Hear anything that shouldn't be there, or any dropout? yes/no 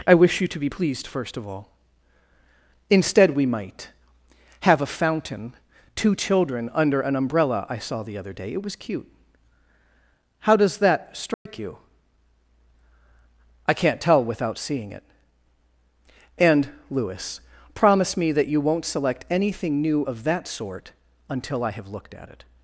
yes